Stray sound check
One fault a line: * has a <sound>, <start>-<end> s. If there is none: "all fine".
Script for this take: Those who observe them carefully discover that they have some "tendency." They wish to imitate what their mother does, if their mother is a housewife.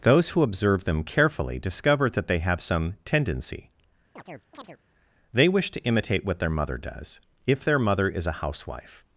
* has a chirp, 4.2-4.8 s